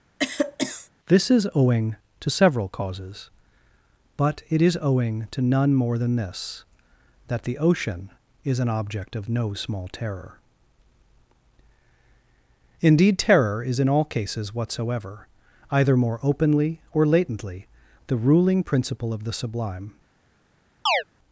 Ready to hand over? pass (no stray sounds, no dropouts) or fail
fail